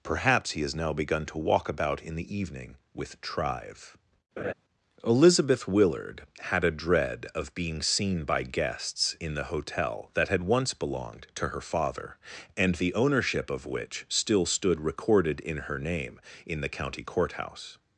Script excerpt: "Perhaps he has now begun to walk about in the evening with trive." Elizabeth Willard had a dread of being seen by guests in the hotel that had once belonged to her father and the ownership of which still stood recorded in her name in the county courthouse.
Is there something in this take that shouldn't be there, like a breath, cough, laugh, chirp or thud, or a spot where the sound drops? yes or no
yes